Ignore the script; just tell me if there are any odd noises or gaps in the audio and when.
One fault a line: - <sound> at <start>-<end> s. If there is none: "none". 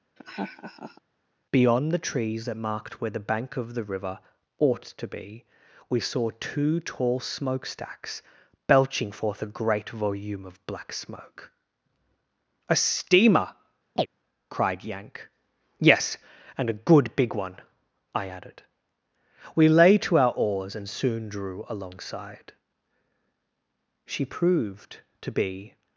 - laugh at 0.2-1.0 s
- chirp at 14.0-14.1 s